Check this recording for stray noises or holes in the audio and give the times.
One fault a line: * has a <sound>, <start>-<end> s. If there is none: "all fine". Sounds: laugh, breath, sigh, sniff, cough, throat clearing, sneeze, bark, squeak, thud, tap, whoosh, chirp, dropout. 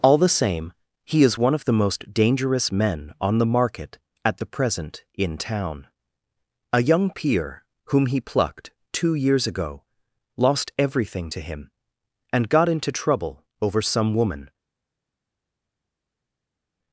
all fine